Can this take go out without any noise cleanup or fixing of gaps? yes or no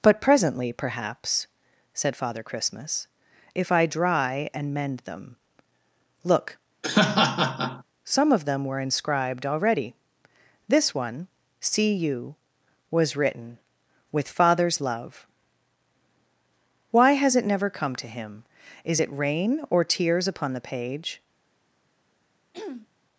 no